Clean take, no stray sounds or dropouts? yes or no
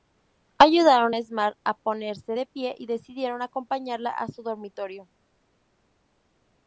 yes